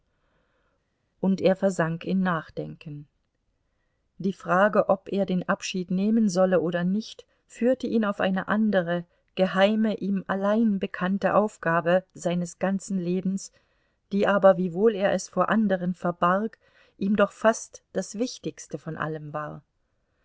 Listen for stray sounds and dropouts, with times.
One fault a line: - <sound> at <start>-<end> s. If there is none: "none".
none